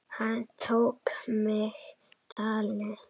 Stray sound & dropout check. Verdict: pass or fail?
fail